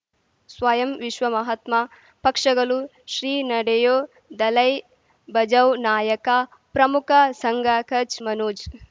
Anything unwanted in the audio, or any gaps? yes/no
no